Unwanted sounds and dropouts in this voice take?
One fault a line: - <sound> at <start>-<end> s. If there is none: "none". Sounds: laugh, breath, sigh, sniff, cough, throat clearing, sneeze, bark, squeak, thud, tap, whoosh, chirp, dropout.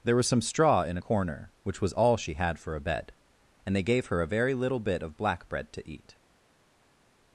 none